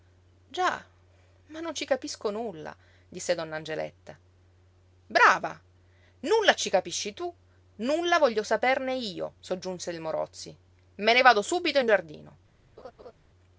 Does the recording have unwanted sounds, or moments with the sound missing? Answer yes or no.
yes